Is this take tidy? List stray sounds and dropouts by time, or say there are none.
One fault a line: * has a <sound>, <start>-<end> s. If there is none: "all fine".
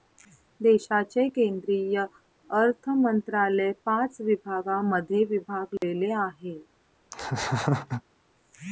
* has a dropout, 5.8-5.8 s
* has a laugh, 7.1-8.0 s